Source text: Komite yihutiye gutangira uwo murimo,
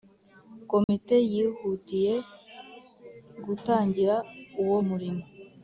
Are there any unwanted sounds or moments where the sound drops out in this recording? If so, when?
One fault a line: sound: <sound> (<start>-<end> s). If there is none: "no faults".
sound: dropout (0.8-0.9 s)